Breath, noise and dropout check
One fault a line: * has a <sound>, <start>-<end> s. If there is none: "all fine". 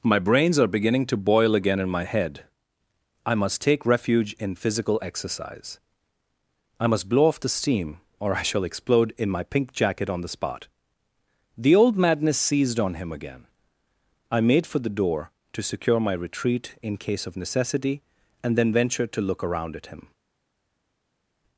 all fine